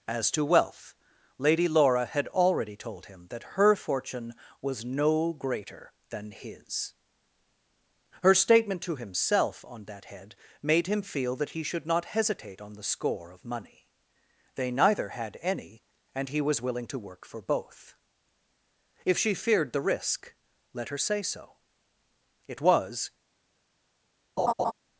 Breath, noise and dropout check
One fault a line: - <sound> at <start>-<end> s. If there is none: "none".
- laugh at 24.4-24.7 s